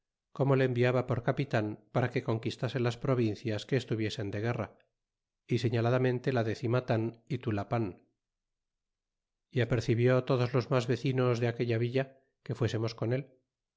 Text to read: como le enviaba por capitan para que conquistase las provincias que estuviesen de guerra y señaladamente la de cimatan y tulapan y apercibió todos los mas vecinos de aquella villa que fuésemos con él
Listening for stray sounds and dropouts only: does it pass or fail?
pass